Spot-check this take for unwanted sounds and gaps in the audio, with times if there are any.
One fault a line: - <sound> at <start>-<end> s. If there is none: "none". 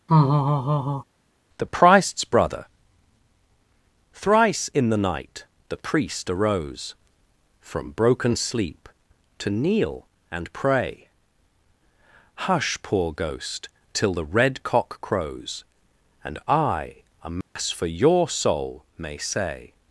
- laugh at 0.1-1.0 s
- dropout at 17.4-17.6 s